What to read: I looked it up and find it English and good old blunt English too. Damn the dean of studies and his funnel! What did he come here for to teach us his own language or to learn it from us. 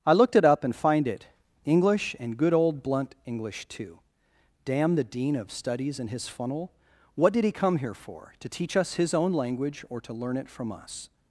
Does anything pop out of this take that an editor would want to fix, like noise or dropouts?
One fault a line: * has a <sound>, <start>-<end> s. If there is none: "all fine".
all fine